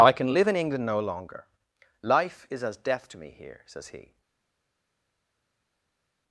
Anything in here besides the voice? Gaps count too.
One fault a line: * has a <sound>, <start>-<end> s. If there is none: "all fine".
all fine